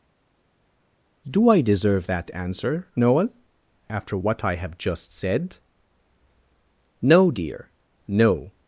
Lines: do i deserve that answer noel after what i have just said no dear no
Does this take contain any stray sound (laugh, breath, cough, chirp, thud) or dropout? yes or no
no